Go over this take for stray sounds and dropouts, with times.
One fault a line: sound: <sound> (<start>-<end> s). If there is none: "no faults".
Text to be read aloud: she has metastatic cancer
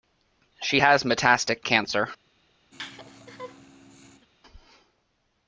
sound: laugh (2.7-4.3 s)